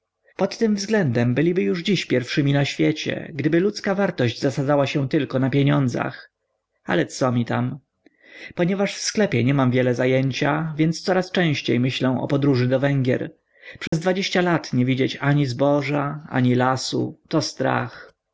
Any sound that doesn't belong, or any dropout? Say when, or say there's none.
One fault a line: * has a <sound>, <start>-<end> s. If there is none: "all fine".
* has a dropout, 13.9-13.9 s